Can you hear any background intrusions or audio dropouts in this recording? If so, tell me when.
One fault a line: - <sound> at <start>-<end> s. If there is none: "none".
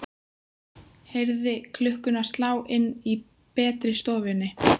none